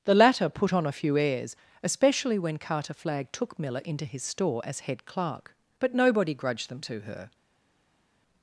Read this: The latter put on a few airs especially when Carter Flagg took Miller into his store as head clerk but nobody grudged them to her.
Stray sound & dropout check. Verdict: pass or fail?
pass